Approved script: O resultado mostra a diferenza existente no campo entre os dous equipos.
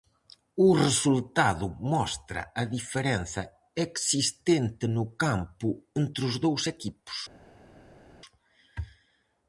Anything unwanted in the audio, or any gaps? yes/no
no